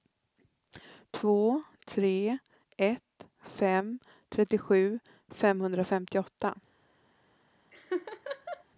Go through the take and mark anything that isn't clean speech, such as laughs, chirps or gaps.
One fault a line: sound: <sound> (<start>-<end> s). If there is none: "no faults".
sound: laugh (7.7-8.6 s)